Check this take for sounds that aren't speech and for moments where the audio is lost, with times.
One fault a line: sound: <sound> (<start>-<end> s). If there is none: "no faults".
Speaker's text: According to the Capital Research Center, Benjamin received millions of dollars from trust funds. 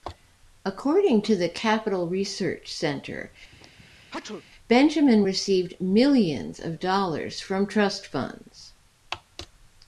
sound: sneeze (3.5-4.4 s)